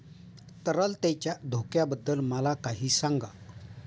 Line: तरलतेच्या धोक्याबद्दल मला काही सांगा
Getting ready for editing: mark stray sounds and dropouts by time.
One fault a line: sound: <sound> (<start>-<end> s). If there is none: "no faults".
no faults